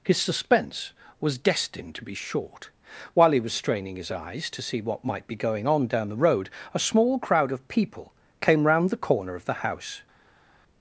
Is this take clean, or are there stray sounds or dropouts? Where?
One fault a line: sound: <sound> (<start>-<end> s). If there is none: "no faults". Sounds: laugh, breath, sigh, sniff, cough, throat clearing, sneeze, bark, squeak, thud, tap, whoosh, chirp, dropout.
no faults